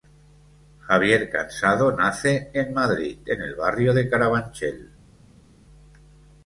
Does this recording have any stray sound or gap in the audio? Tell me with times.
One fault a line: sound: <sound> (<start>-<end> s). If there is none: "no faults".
no faults